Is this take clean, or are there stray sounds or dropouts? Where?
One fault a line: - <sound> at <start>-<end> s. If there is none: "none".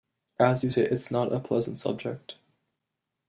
none